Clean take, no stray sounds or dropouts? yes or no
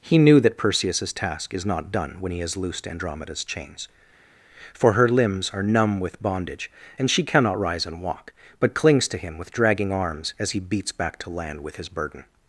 yes